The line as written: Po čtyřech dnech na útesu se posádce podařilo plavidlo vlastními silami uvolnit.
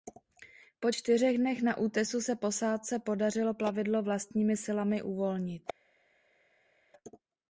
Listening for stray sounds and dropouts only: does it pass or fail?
pass